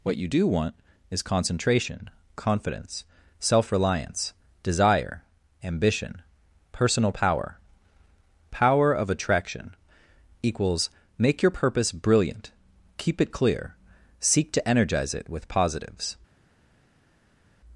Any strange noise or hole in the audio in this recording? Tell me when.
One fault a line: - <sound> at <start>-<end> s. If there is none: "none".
none